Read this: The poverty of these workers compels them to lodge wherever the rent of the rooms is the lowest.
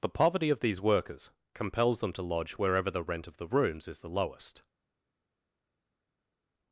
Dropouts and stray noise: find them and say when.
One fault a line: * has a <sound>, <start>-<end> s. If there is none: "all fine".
all fine